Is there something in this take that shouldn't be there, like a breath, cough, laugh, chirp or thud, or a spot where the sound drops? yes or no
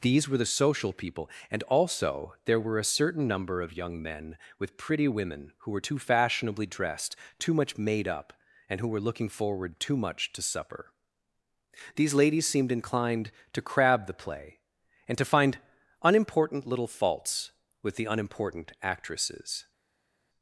no